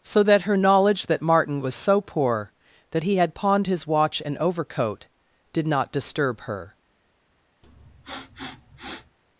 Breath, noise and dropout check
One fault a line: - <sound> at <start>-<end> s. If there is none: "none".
- sniff at 7.6-9.2 s